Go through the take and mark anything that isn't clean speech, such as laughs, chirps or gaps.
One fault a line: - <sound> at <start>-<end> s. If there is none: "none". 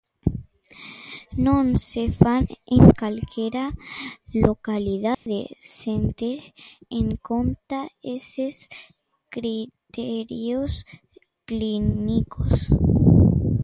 - dropout at 5.1-5.3 s